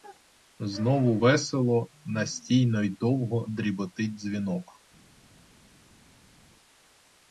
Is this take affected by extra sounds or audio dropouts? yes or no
no